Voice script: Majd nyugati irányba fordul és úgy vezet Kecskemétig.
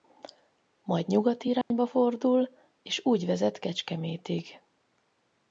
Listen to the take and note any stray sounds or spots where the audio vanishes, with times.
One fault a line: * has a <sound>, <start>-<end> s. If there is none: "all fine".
* has a dropout, 1.6-1.7 s